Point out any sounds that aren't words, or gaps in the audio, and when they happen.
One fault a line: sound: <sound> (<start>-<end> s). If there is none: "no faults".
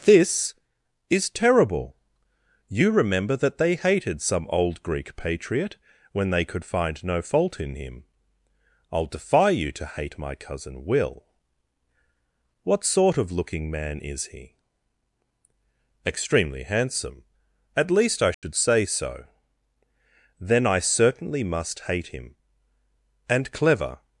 sound: dropout (18.3-18.4 s)